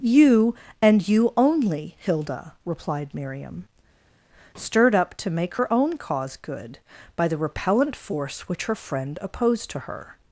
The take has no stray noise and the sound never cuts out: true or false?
true